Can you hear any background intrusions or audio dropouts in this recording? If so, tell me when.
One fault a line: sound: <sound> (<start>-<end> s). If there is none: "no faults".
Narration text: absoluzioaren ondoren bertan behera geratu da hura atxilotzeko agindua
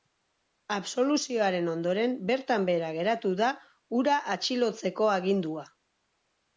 no faults